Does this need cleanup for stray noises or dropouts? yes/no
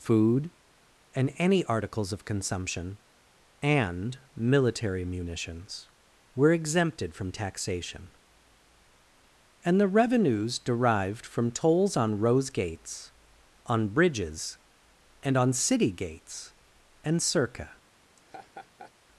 yes